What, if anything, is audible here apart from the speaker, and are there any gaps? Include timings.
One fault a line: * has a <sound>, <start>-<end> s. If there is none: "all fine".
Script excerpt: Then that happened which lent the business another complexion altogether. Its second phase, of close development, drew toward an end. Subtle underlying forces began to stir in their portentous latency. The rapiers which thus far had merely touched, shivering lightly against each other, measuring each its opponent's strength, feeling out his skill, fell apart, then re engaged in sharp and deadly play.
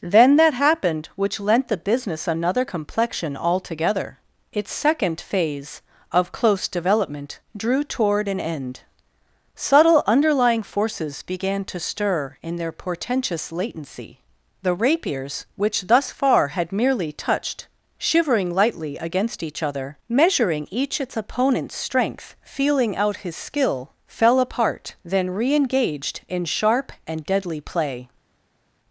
all fine